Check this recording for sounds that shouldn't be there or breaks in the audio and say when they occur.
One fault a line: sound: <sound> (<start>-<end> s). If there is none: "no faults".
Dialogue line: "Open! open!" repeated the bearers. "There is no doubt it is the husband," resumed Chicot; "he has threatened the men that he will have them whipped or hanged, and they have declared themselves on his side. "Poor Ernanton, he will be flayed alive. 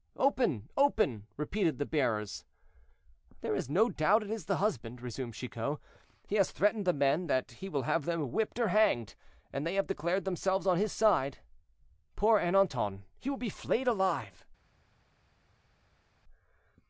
no faults